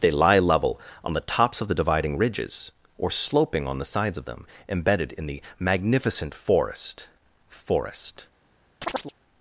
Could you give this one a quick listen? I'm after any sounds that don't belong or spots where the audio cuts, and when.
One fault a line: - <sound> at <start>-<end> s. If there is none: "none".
- chirp at 8.8-9.1 s